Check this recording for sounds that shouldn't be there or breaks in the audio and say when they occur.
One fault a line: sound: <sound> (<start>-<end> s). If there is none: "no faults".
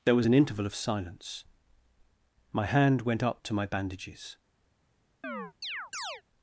sound: chirp (5.2-6.2 s)